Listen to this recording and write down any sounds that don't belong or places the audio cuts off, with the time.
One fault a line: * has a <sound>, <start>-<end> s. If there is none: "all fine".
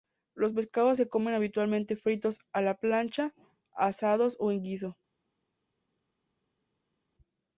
all fine